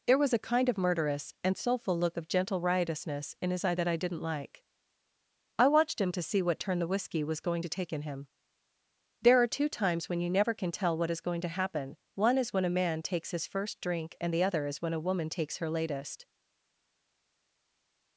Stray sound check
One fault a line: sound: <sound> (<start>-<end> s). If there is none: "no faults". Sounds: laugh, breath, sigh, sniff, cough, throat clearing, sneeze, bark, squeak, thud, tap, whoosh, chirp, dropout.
no faults